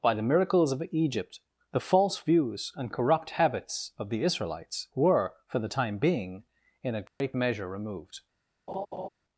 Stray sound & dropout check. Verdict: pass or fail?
fail